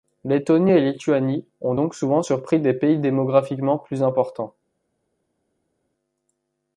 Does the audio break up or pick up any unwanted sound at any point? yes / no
no